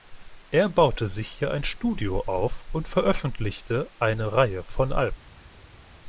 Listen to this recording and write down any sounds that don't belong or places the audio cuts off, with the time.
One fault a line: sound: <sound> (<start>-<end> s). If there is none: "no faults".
no faults